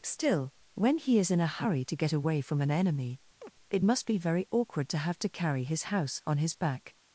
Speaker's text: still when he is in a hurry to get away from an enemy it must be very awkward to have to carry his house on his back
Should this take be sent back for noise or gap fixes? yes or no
yes